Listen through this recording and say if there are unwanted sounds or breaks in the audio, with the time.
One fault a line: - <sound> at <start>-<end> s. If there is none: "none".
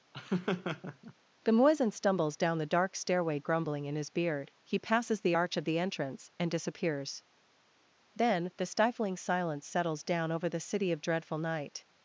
- laugh at 0.1-1.1 s